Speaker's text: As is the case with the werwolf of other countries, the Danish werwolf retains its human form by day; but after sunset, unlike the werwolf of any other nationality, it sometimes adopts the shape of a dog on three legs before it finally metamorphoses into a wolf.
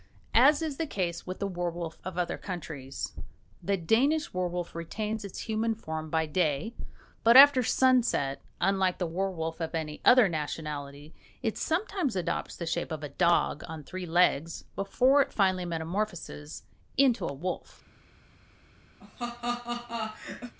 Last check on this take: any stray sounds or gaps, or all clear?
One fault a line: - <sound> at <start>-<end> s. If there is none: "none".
- laugh at 19.0-20.5 s